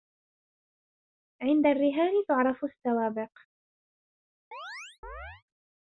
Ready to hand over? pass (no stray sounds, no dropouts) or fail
fail